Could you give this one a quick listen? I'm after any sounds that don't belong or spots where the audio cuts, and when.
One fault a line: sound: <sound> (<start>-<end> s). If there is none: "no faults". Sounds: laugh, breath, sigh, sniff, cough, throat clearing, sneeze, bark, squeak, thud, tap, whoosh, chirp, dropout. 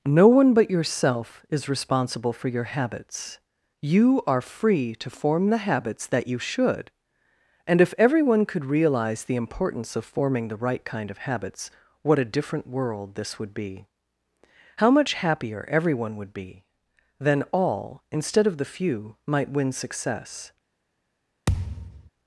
sound: thud (21.5-22.1 s)